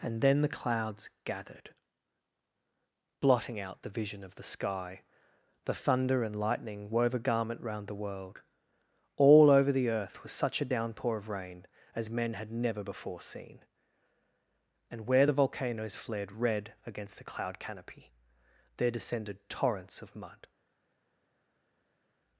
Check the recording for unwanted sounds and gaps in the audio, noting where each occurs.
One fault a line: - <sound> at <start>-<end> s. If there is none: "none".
none